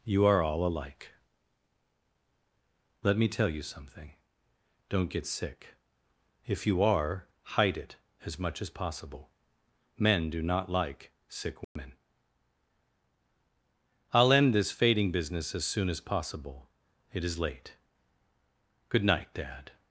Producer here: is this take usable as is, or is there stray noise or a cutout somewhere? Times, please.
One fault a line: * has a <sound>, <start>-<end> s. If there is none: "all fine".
* has a dropout, 11.6-11.8 s